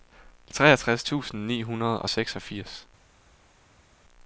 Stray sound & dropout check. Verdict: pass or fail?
pass